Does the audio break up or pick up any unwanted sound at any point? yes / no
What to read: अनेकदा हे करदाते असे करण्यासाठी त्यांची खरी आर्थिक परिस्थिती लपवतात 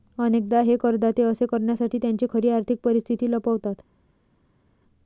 no